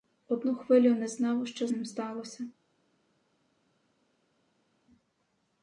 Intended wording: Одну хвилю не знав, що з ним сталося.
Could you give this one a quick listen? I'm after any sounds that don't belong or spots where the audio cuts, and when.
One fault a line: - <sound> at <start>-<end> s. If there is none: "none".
none